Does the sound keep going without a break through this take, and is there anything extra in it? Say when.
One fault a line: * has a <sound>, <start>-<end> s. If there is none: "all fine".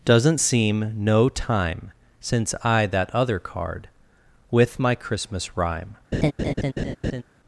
* has a laugh, 6.1-7.2 s